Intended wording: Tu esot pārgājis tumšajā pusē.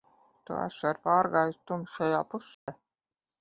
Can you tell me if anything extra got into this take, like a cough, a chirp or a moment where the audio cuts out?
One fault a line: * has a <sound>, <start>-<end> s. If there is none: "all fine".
* has a dropout, 2.5-2.7 s